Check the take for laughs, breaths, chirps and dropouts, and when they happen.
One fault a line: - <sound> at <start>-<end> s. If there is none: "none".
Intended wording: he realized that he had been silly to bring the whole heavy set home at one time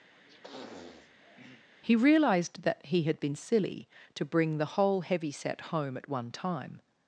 - sniff at 0.1-1.7 s